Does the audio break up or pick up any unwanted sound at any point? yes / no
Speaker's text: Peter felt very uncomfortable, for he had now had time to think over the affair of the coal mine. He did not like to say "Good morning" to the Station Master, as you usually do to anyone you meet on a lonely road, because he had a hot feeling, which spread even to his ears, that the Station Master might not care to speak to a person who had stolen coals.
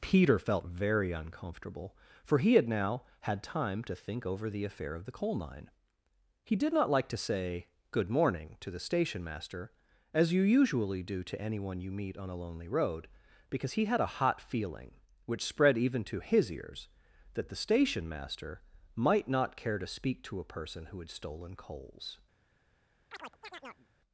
yes